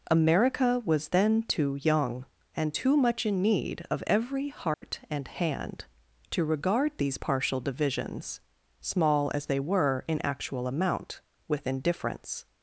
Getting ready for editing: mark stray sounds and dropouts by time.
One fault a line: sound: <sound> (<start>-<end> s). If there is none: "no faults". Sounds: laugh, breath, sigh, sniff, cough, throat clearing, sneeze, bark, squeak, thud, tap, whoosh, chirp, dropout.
sound: dropout (4.7-4.8 s)